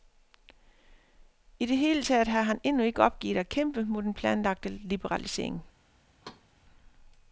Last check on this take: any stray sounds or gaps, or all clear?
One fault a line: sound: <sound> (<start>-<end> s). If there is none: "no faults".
sound: thud (6.2-6.5 s)